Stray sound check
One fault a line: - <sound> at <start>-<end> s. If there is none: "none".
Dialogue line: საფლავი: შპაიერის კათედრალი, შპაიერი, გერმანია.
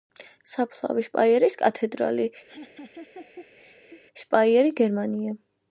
- laugh at 2.5-4.0 s